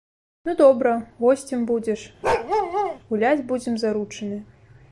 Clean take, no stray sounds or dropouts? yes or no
no